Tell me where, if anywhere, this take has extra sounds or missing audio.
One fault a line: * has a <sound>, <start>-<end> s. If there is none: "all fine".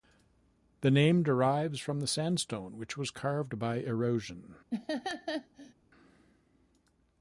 * has a laugh, 4.7-5.7 s